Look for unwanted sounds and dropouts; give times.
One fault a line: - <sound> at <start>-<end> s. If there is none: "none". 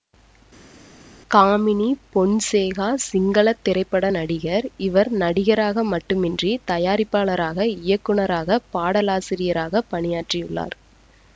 none